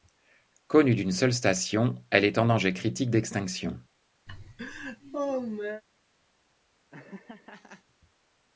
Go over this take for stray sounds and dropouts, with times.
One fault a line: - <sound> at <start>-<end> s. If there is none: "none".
- laugh at 4.3-5.8 s
- laugh at 6.9-7.8 s